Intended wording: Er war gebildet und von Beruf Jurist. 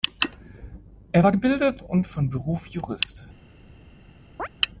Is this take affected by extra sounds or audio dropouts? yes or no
yes